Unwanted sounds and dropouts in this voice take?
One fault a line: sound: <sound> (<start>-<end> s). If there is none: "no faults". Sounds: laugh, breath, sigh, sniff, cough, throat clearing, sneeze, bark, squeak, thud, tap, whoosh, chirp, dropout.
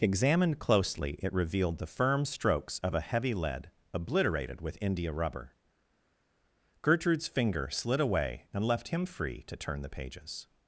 no faults